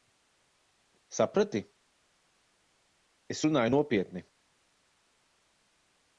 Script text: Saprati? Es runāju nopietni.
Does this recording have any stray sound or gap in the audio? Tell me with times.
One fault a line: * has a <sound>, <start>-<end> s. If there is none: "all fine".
all fine